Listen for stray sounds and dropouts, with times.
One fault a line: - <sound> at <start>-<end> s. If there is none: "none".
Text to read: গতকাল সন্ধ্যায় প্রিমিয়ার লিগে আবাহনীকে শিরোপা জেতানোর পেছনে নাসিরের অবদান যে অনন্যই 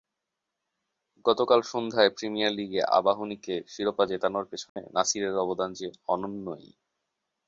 - dropout at 4.7-4.8 s